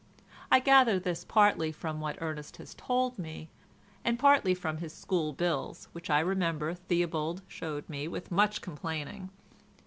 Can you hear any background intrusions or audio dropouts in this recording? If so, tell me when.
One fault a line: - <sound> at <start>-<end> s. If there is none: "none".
none